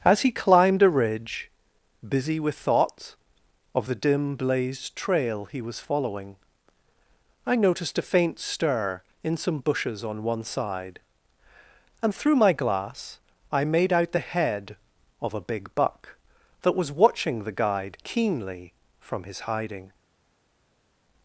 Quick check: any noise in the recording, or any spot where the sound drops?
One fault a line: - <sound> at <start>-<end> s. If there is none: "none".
none